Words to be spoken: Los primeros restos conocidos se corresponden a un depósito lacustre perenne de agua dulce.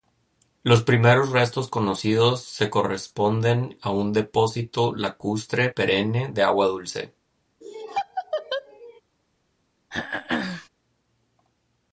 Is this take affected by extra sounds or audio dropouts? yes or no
yes